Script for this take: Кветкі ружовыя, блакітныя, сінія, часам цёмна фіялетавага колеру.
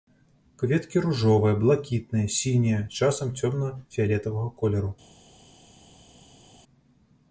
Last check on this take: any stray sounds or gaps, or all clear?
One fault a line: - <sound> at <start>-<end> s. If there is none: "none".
none